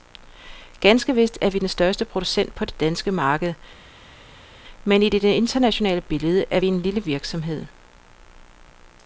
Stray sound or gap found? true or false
false